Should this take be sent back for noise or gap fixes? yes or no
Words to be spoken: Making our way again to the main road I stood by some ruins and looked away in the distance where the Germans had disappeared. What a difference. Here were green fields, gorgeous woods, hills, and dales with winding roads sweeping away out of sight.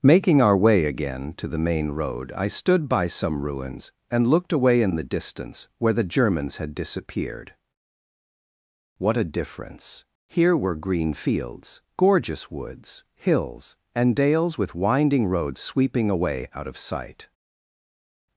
no